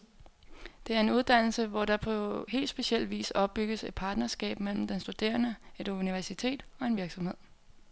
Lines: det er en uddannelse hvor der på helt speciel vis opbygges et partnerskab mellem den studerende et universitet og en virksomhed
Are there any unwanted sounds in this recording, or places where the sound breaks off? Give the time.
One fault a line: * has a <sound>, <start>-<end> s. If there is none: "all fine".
all fine